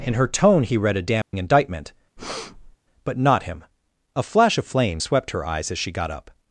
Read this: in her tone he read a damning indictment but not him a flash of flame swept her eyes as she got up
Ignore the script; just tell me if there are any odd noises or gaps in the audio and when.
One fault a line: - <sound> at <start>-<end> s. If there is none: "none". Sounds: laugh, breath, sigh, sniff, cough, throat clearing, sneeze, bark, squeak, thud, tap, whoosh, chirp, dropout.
- dropout at 1.2-1.3 s
- breath at 2.2-2.8 s